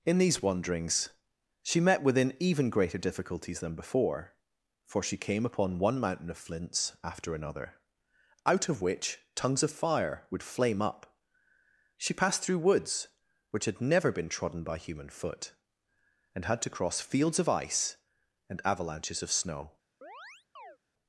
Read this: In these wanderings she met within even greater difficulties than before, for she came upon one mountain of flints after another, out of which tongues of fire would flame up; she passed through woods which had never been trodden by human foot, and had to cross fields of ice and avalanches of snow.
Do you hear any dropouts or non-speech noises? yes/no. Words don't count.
yes